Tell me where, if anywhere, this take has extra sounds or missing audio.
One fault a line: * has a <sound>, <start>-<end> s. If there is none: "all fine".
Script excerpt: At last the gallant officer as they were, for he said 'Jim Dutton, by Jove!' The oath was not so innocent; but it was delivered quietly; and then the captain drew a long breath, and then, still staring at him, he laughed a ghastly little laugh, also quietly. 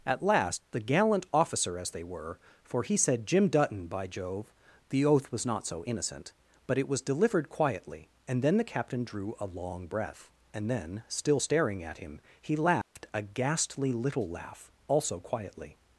* has a dropout, 12.8-13.0 s